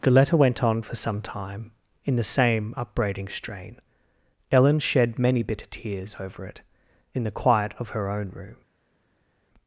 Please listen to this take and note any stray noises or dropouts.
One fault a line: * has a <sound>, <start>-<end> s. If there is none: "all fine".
all fine